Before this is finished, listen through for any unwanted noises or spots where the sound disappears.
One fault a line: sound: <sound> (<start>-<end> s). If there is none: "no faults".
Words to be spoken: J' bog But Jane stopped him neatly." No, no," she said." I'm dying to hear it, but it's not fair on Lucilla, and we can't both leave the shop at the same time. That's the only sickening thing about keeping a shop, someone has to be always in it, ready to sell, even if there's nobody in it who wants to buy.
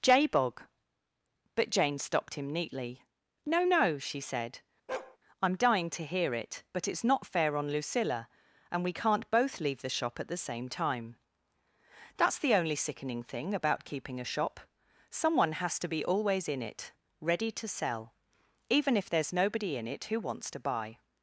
sound: bark (4.9-5.2 s)